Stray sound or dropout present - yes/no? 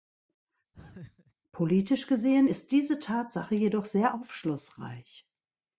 yes